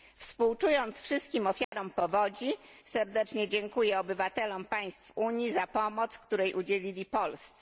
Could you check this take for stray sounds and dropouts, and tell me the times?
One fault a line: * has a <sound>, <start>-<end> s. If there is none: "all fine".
* has a dropout, 1.6-1.7 s